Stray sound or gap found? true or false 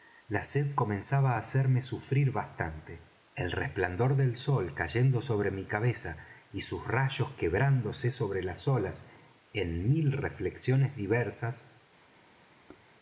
true